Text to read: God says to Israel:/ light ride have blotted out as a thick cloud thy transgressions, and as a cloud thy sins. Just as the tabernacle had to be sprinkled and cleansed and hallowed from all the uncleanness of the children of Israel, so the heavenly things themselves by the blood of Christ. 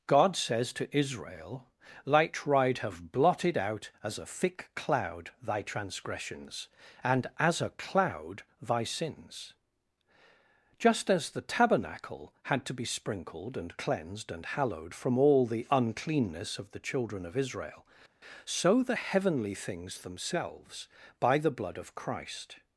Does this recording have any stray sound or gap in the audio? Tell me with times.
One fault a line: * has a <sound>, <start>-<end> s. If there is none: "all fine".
all fine